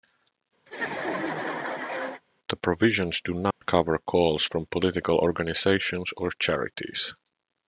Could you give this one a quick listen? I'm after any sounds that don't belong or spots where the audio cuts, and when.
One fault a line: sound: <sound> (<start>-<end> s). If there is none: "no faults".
sound: laugh (0.7-2.2 s)
sound: dropout (3.5-3.6 s)